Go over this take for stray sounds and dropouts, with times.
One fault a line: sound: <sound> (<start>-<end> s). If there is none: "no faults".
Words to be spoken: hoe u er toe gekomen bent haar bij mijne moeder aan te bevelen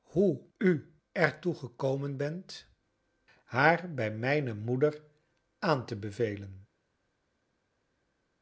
no faults